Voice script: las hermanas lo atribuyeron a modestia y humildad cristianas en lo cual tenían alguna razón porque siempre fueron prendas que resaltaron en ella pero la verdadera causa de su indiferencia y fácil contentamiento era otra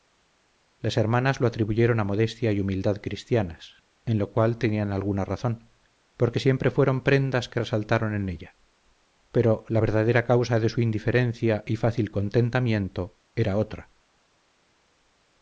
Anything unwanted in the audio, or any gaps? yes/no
no